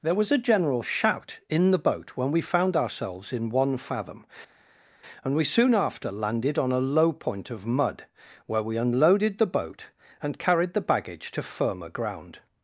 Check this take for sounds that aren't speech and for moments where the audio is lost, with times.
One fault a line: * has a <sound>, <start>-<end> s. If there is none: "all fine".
all fine